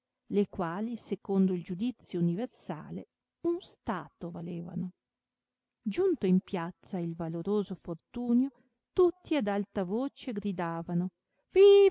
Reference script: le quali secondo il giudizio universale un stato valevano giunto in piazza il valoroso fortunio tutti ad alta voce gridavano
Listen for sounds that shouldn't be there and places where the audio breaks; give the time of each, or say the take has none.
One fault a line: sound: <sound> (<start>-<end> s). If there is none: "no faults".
no faults